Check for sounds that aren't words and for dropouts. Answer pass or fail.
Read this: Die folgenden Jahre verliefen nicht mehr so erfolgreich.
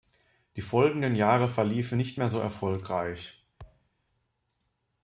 fail